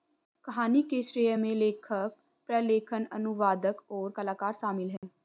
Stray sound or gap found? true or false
true